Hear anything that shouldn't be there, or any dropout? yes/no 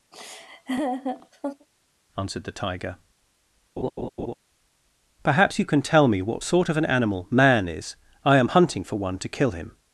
yes